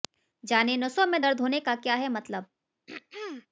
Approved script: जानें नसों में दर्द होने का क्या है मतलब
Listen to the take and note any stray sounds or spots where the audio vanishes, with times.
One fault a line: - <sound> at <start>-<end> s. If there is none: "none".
- throat clearing at 2.9-3.5 s